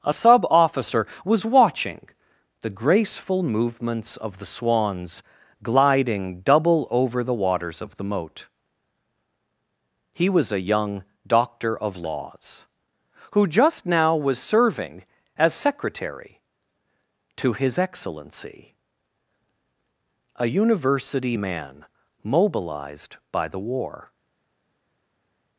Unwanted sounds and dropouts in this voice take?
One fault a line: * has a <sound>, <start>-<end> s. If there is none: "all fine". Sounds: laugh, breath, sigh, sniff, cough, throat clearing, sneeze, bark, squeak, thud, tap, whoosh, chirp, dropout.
all fine